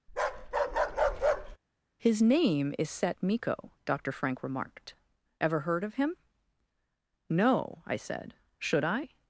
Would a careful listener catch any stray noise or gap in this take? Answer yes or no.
yes